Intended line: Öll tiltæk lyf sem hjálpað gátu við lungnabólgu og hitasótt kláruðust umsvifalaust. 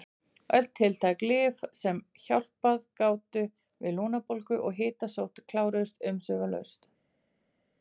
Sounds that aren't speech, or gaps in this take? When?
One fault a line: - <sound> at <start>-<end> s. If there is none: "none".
none